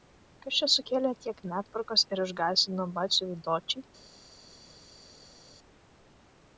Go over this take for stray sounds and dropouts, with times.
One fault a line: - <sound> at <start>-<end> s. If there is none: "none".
none